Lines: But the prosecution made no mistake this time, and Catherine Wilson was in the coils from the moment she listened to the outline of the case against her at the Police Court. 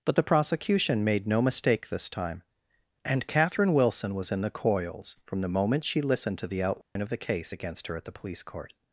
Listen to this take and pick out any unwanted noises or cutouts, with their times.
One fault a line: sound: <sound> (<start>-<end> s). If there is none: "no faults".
sound: dropout (6.8-7.0 s)